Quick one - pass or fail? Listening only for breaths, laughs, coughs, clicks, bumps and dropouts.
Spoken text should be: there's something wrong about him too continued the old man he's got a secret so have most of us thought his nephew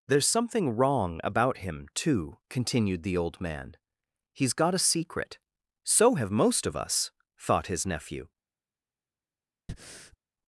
fail